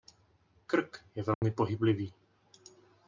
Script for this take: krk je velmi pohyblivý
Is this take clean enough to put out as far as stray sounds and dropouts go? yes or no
no